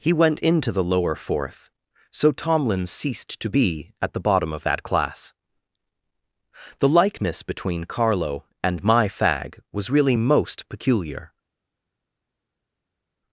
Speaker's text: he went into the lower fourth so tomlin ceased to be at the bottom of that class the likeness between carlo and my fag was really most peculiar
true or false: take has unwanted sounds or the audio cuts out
false